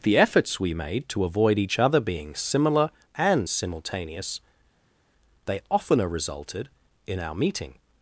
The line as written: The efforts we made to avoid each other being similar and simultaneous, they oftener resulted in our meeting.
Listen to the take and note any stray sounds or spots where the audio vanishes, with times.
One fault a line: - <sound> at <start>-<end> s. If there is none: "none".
none